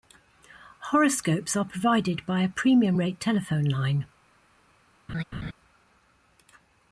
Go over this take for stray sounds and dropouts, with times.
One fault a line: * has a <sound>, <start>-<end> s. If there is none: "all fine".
* has a laugh, 5.1-5.5 s